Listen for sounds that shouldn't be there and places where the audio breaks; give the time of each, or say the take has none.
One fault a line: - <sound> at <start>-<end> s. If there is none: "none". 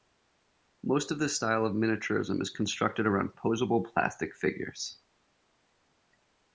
none